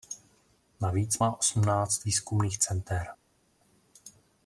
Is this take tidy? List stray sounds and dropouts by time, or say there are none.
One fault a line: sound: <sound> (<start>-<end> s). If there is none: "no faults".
no faults